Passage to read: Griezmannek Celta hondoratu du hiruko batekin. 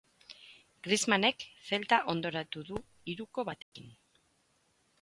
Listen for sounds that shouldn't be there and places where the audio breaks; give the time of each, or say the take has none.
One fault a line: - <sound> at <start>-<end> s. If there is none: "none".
- dropout at 3.6-3.7 s